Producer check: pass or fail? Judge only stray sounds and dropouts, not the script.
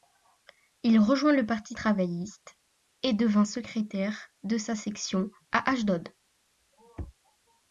pass